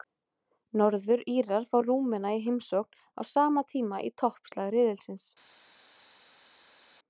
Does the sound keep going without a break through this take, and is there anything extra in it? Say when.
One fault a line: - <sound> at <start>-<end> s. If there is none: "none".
none